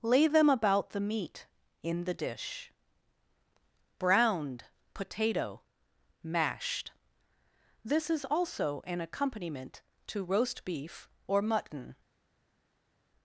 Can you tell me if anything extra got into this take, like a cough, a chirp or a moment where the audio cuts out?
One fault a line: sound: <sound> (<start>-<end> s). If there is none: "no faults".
no faults